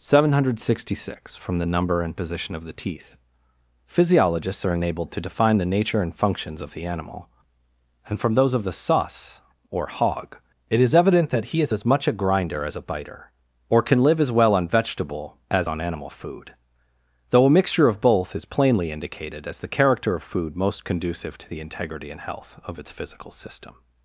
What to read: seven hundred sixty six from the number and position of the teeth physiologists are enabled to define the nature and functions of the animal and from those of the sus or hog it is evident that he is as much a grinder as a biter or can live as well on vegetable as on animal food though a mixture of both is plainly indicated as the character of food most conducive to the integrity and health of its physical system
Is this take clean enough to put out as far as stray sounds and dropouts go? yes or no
yes